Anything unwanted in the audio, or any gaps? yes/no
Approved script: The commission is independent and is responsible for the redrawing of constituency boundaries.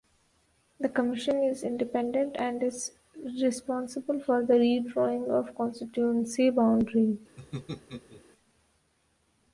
yes